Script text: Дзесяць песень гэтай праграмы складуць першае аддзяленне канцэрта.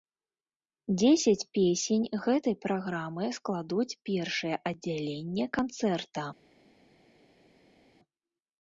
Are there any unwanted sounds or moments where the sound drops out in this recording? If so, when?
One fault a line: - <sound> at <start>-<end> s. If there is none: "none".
none